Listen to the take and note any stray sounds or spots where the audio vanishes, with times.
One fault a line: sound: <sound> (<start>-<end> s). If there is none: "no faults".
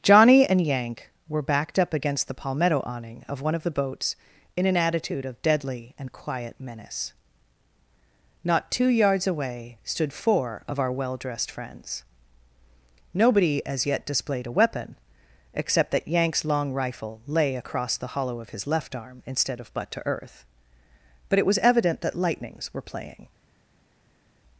no faults